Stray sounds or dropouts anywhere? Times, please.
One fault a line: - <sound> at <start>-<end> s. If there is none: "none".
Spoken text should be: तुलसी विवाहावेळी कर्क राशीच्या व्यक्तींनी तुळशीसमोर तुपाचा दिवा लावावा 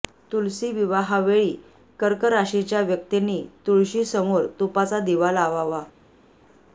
none